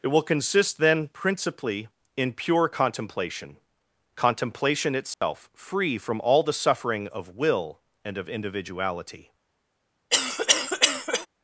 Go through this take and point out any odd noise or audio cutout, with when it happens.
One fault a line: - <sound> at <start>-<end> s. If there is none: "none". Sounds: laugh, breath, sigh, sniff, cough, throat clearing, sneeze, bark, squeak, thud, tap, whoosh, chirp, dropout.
- dropout at 5.1-5.2 s
- cough at 10.1-11.3 s